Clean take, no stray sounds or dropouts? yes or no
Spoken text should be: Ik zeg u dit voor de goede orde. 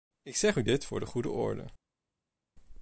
yes